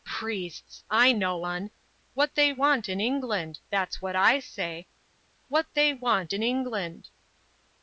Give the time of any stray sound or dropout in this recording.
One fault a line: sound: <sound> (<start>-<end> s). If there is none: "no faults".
no faults